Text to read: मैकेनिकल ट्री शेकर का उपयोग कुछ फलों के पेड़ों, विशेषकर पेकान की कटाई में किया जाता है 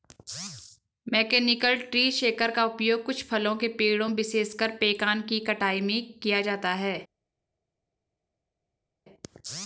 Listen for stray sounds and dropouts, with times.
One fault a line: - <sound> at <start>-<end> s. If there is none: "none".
none